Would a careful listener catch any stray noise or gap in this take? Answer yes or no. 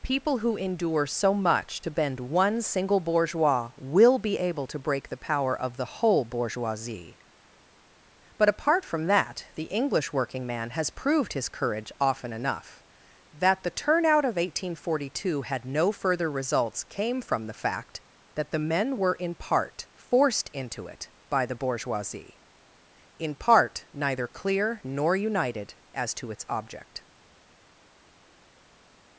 no